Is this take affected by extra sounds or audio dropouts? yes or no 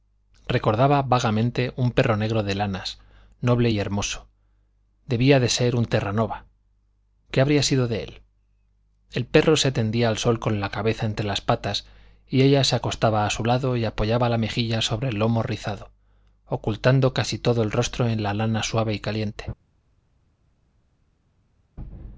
no